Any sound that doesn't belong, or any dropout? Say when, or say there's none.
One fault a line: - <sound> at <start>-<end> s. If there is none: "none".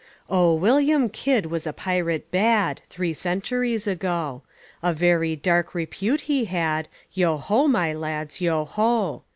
none